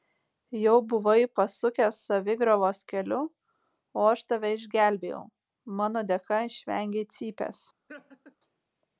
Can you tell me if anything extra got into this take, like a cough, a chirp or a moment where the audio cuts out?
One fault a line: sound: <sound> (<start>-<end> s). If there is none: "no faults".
sound: laugh (7.9-8.4 s)